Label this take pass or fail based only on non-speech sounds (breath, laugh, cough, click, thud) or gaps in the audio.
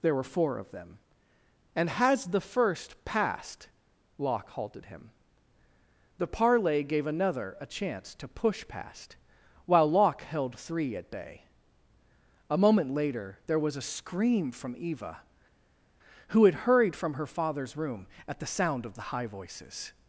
pass